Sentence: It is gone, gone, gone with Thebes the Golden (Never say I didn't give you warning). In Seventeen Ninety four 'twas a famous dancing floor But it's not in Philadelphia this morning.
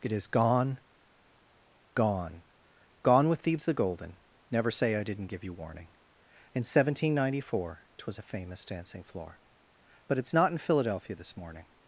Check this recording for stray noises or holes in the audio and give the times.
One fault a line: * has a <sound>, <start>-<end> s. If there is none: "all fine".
all fine